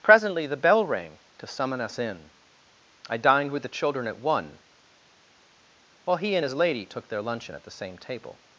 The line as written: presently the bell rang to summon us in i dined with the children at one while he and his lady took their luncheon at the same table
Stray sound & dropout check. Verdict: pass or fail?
pass